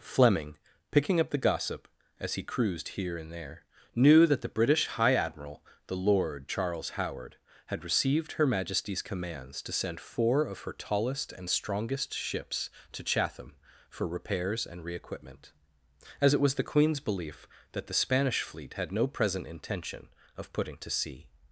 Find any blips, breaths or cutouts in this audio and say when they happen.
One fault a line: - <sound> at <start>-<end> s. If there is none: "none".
none